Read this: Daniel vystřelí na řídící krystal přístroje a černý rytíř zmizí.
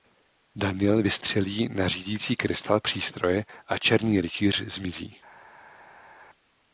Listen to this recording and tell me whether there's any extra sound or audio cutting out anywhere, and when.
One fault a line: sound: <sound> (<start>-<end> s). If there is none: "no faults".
no faults